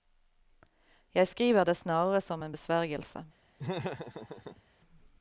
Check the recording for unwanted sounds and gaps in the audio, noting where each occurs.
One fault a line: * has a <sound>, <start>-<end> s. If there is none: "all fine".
* has a laugh, 3.6-4.6 s